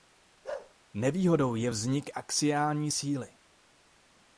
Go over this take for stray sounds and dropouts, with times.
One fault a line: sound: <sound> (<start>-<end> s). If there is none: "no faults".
sound: bark (0.4-0.7 s)